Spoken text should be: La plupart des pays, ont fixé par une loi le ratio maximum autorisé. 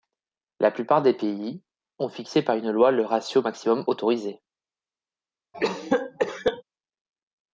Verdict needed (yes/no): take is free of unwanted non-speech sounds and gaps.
no